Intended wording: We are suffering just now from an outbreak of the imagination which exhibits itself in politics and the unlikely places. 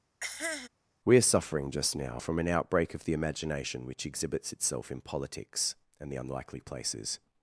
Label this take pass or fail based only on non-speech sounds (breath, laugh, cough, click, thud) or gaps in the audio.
fail